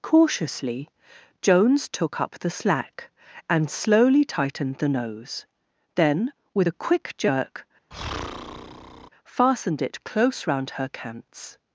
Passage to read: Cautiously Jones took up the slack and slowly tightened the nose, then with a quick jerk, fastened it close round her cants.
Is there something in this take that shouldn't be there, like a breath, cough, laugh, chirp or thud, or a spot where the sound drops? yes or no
yes